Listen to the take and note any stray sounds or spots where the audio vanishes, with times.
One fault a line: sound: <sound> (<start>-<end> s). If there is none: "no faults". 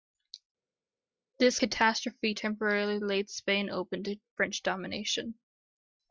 no faults